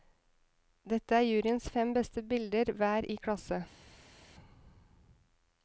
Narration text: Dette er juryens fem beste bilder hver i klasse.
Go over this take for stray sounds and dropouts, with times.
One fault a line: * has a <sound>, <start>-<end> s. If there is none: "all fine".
all fine